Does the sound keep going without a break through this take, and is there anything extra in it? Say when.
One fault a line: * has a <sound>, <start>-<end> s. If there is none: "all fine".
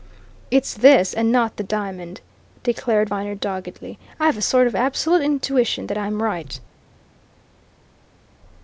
all fine